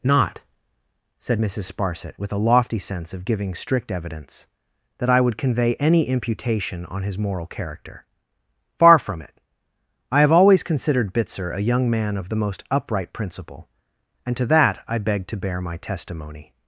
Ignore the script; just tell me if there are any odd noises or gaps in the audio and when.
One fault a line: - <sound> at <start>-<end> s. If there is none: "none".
none